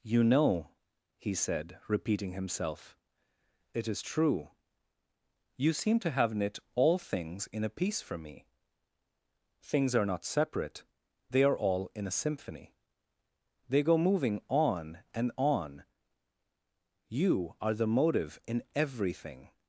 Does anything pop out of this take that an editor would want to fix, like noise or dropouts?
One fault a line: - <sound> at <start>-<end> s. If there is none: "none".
none